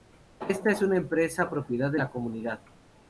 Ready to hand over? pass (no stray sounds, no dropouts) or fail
pass